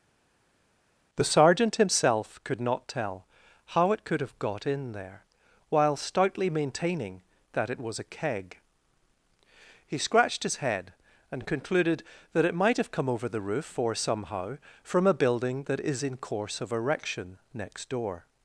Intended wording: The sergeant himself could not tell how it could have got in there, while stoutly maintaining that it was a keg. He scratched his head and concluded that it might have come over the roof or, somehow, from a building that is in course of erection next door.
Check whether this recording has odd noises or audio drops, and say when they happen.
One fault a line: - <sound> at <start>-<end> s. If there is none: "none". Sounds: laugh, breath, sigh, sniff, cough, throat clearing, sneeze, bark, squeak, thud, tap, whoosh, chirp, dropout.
none